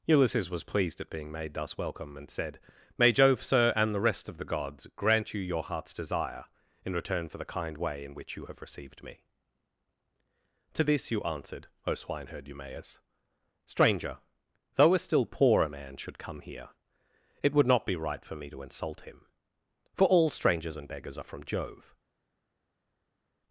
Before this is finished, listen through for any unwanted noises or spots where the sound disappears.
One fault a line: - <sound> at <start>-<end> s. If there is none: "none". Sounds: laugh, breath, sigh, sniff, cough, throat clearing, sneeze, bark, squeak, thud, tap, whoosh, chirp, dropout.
none